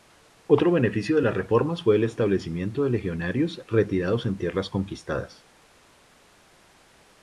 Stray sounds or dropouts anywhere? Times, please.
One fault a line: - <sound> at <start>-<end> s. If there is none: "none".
none